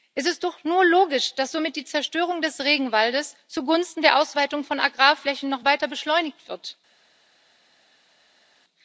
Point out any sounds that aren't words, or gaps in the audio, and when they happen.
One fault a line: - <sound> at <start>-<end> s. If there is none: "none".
none